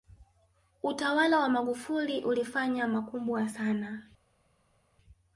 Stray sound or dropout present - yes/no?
no